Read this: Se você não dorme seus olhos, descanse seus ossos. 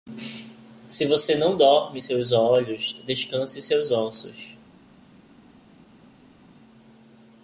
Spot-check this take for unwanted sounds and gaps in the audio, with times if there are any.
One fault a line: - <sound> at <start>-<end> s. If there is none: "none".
none